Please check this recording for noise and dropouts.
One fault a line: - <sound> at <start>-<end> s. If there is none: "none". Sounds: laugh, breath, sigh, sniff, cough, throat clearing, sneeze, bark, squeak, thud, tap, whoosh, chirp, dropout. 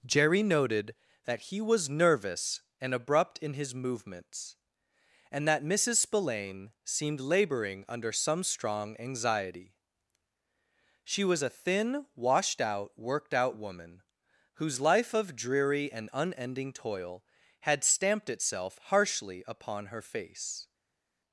none